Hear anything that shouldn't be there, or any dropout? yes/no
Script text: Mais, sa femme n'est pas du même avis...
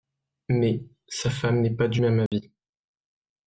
yes